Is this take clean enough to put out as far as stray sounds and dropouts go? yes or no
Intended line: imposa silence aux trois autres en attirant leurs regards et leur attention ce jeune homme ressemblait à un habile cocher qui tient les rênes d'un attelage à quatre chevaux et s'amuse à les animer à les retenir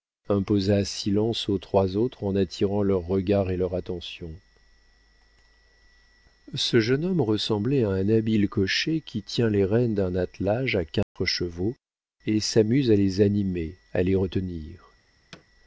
no